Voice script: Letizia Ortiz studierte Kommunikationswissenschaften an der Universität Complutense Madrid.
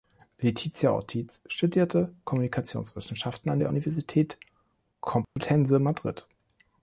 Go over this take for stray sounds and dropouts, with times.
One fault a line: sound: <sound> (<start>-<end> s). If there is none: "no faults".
sound: dropout (5.2-5.4 s)